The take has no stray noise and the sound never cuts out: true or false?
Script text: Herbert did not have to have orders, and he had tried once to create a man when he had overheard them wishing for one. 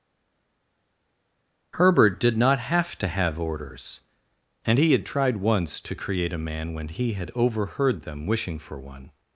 true